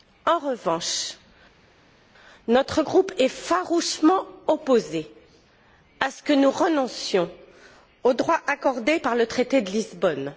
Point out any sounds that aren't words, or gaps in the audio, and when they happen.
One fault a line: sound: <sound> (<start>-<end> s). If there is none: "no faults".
no faults